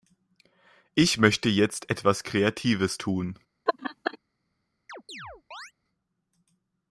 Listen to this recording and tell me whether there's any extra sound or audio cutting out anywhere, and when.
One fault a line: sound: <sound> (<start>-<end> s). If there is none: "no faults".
sound: laugh (3.7-4.2 s)
sound: chirp (4.9-5.7 s)